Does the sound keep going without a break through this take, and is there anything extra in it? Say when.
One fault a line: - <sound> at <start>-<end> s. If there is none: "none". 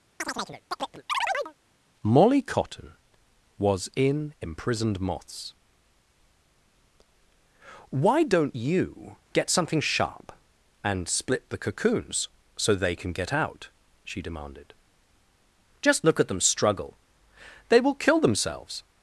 - chirp at 0.2-1.5 s